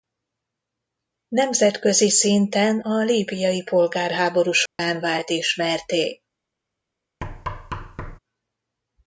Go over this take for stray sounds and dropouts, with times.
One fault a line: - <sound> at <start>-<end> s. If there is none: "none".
- dropout at 4.7-4.8 s
- thud at 7.2-8.2 s